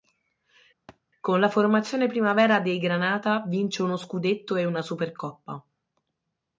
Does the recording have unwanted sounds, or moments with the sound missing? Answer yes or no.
yes